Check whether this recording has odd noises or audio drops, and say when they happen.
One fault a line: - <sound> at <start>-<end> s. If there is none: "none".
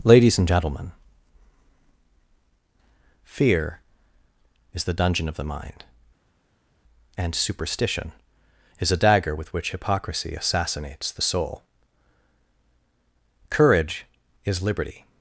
none